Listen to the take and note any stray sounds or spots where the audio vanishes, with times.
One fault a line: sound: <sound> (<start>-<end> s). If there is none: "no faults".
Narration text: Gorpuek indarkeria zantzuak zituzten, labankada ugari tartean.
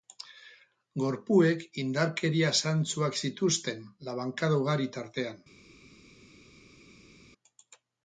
no faults